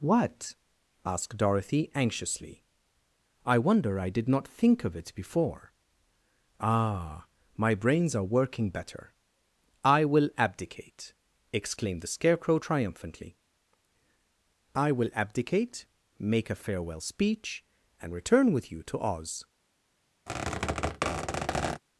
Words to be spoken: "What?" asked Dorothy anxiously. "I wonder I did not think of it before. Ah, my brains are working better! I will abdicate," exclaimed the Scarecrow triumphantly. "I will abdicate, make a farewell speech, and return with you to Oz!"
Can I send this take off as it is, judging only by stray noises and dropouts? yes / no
no